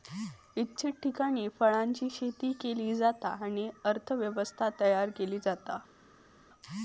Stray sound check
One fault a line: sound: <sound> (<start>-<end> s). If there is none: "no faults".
no faults